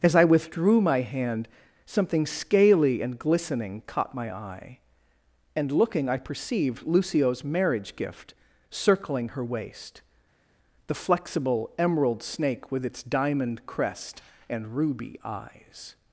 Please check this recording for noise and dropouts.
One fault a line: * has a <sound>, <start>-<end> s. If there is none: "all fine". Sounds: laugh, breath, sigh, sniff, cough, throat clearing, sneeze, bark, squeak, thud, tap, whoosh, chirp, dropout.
all fine